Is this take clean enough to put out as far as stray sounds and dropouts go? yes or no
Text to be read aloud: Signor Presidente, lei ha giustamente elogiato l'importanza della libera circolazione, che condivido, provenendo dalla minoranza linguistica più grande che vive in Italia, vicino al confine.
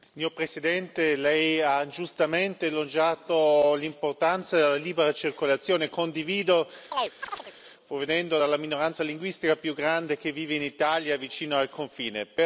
no